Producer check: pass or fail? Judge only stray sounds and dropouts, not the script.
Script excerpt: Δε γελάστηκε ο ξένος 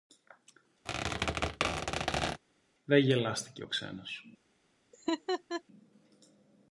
fail